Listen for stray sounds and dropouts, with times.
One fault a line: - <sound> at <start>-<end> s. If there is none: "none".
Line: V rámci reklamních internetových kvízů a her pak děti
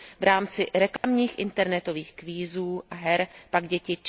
- dropout at 1.0-1.0 s